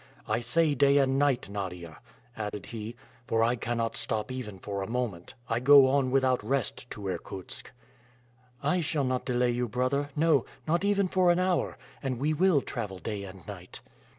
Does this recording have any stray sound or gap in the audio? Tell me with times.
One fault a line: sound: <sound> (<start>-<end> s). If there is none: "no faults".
sound: dropout (2.5-2.5 s)